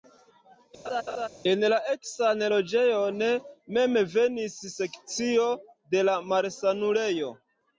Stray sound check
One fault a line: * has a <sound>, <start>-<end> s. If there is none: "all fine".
* has a laugh, 0.8-1.3 s